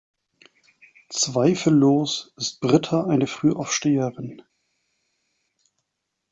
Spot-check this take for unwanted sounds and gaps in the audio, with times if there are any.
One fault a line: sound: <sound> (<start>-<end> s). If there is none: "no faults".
no faults